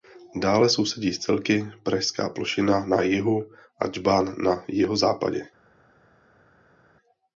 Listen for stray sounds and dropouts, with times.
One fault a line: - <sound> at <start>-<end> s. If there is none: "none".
none